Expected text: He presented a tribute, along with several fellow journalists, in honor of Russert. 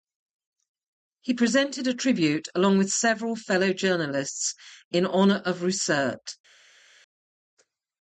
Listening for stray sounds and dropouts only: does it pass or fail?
pass